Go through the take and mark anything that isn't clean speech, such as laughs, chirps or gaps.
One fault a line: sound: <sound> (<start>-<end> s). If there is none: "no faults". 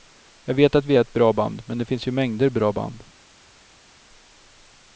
no faults